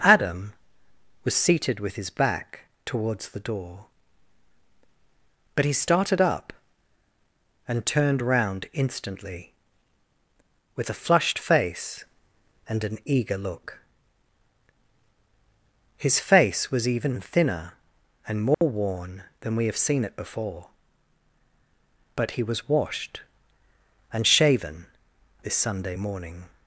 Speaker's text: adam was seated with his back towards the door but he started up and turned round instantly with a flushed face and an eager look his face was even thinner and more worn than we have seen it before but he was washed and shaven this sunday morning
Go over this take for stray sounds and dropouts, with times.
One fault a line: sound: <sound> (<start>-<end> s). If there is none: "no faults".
sound: dropout (18.5-18.6 s)